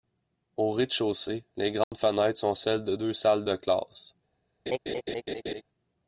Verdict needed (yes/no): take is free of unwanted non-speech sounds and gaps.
no